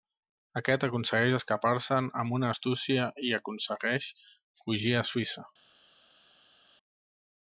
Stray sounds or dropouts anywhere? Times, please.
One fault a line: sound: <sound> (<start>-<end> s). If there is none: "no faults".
no faults